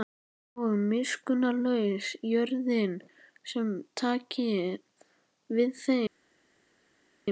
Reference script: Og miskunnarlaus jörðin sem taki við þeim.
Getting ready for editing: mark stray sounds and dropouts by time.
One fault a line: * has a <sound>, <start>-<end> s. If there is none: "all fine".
all fine